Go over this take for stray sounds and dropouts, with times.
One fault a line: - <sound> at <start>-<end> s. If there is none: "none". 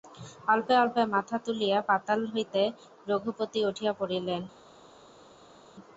none